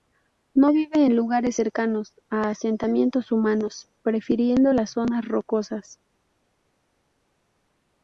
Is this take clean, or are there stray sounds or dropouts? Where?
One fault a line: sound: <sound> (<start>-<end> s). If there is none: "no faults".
no faults